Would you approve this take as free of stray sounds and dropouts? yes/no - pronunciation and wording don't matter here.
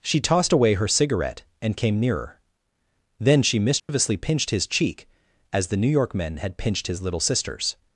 no